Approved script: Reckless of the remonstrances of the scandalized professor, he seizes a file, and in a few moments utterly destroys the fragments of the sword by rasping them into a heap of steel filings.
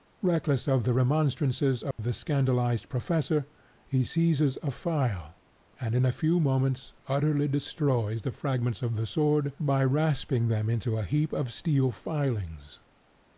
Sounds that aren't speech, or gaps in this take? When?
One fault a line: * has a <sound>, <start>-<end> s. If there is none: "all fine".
* has a dropout, 1.9-2.0 s